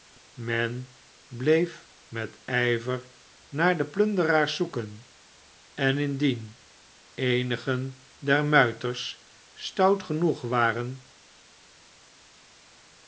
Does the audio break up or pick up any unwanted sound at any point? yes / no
no